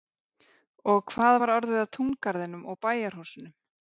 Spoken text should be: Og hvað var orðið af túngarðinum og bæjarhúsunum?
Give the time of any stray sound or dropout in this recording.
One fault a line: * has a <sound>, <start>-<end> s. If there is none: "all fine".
all fine